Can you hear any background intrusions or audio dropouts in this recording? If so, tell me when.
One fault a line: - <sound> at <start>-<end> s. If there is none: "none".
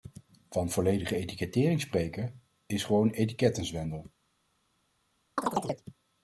- chirp at 5.4-5.8 s